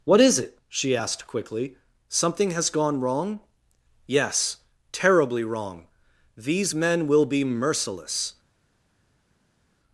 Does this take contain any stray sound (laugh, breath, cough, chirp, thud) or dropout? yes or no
no